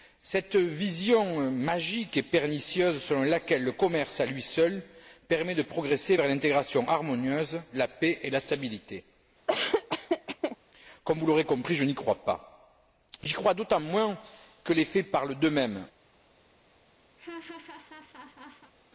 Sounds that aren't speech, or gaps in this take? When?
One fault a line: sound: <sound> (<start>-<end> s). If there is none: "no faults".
sound: laugh (9.5-10.6 s)
sound: laugh (17.2-18.7 s)